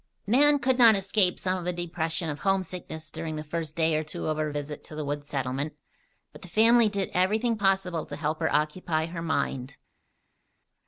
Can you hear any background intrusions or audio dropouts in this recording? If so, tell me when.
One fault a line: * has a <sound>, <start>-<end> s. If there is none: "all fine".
all fine